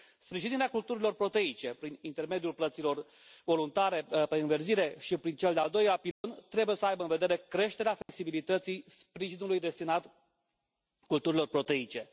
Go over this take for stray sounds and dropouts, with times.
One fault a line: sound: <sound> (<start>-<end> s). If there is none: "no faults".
sound: dropout (6.1-6.2 s)
sound: dropout (8.0-8.1 s)